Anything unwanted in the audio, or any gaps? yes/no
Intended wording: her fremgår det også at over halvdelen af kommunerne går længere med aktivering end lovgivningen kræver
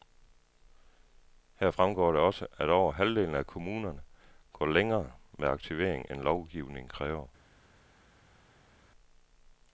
no